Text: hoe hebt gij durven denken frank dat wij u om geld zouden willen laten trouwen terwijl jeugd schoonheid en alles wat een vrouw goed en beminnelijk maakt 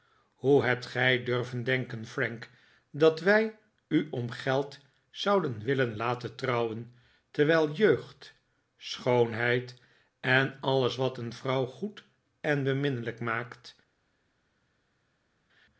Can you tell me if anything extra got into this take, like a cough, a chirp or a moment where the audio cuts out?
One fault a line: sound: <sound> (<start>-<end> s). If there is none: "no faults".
no faults